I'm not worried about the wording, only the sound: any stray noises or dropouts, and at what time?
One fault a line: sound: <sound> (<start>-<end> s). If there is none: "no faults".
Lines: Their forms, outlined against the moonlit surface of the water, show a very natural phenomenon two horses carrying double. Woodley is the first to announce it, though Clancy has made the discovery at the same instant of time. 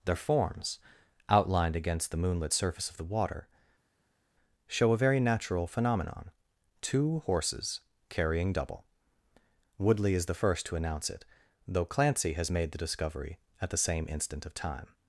no faults